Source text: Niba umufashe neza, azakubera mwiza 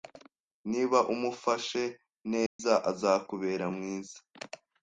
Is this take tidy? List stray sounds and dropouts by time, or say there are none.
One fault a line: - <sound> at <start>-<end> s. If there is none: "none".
- dropout at 2.5-2.6 s